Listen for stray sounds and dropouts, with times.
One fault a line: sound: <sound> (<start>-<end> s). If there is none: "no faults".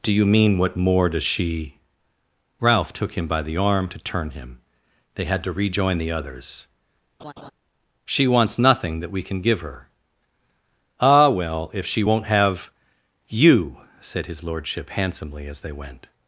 sound: laugh (7.2-7.5 s)